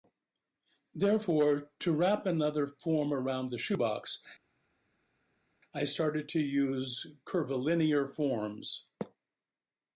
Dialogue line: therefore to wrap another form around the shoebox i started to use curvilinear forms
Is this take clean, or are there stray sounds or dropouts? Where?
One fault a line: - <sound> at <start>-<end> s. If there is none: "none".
none